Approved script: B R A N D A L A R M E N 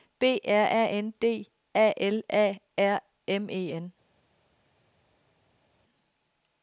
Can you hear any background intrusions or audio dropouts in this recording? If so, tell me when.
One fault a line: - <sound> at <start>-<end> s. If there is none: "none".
none